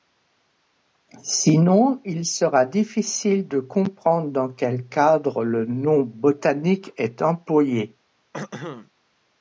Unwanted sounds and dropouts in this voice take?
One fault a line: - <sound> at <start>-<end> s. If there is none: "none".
- throat clearing at 8.3-8.9 s